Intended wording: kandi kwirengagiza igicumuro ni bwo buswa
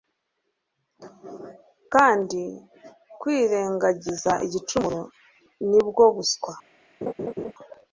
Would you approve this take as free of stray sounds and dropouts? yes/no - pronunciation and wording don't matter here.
no